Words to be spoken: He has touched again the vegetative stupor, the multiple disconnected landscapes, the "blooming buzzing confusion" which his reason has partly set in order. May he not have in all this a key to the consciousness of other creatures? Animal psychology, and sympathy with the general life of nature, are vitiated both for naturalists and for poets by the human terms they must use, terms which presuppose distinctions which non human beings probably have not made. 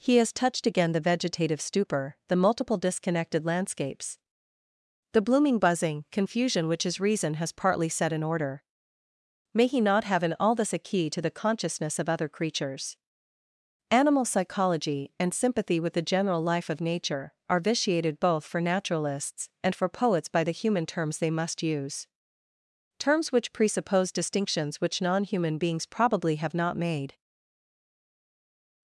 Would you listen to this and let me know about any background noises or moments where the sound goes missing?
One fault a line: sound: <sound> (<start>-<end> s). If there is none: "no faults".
no faults